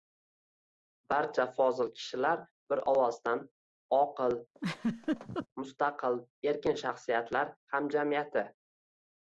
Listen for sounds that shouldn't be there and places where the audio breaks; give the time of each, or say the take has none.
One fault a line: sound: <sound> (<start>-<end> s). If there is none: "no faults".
sound: laugh (4.5-5.5 s)